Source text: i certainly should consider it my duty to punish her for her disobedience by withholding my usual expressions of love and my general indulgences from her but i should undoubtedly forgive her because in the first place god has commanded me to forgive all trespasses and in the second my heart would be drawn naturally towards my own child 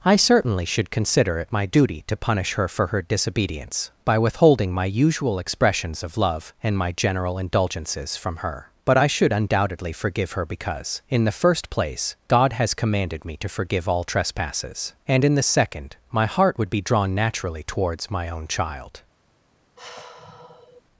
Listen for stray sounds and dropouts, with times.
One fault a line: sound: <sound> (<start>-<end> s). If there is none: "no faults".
sound: sigh (19.8-20.8 s)